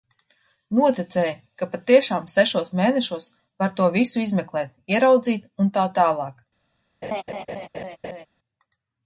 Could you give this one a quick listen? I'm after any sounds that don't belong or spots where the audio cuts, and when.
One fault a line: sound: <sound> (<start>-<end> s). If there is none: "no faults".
sound: laugh (7.0-8.3 s)